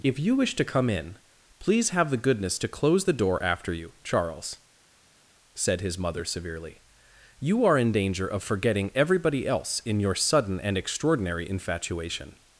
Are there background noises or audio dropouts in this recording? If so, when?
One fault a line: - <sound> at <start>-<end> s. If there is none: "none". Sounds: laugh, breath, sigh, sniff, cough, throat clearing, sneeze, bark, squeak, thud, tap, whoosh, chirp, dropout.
none